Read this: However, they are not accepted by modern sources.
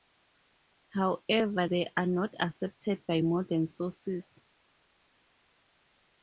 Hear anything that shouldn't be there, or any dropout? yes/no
no